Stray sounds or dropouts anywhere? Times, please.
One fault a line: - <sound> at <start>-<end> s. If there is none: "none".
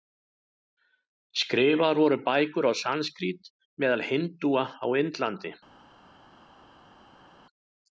none